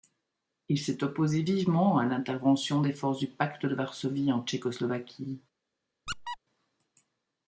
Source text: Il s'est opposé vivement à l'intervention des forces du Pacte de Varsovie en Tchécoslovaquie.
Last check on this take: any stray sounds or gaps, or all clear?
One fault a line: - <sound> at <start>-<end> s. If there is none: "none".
- squeak at 6.1-6.4 s